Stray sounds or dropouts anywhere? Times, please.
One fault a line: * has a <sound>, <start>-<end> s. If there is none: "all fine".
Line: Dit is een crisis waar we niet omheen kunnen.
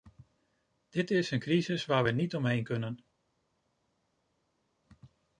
all fine